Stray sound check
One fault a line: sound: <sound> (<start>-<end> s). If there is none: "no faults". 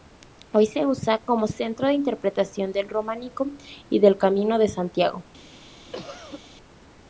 sound: cough (5.9-6.4 s)